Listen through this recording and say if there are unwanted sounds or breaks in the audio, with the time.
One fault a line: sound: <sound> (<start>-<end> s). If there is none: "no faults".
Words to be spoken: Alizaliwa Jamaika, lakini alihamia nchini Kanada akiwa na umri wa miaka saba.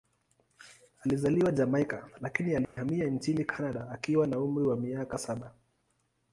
sound: dropout (2.6-2.8 s)